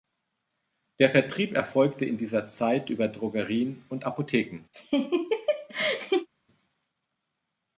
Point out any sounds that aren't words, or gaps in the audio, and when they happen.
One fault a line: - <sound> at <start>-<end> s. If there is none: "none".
- laugh at 4.7-6.3 s